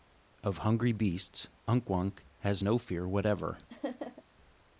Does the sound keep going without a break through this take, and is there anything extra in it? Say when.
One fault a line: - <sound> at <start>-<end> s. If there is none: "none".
- laugh at 3.7-4.2 s